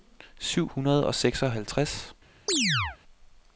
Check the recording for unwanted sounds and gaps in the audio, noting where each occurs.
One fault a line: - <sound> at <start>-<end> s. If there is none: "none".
- chirp at 2.5-3.0 s